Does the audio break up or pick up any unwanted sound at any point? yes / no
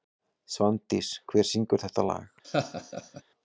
yes